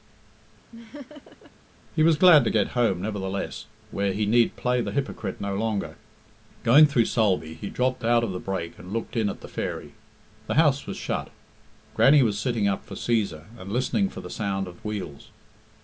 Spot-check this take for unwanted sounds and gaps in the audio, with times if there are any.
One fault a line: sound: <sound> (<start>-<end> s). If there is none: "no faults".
sound: laugh (0.7-1.5 s)